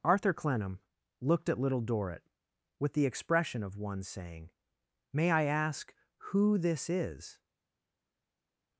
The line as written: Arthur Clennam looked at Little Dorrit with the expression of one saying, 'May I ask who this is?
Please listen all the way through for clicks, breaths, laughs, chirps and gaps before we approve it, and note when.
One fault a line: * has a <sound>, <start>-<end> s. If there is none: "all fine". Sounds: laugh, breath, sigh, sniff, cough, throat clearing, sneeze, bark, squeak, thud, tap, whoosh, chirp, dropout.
all fine